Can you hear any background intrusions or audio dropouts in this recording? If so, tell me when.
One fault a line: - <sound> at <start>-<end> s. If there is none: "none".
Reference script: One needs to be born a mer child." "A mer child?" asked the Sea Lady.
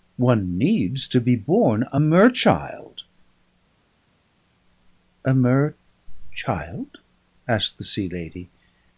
none